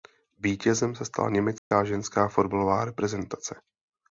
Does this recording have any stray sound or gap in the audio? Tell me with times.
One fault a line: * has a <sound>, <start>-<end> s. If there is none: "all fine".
* has a dropout, 1.6-1.7 s